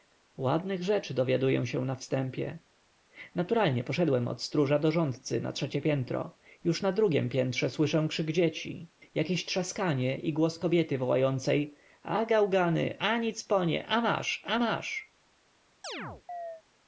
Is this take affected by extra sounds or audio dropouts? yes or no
yes